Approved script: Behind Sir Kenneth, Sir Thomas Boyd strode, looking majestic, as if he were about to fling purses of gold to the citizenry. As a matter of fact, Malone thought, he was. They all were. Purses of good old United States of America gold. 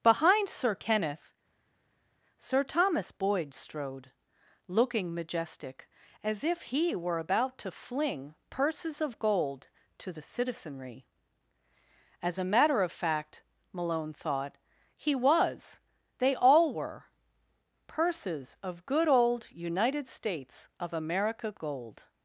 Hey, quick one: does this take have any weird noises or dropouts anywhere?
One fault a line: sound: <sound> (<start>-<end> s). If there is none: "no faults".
no faults